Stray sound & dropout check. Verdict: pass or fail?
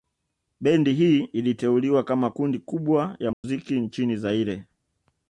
fail